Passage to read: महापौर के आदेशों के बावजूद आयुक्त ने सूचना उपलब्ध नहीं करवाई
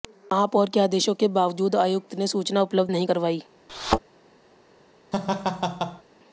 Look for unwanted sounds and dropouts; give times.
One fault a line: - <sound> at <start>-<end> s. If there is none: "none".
- thud at 3.7-4.0 s
- laugh at 5.1-6.0 s